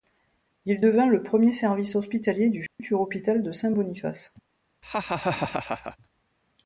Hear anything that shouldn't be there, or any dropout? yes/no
yes